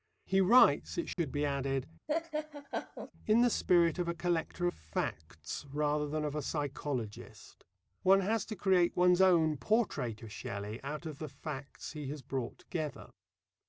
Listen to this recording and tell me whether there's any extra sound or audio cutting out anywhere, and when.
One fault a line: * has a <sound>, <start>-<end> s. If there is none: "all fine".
* has a dropout, 1.1-1.2 s
* has a laugh, 2.1-3.1 s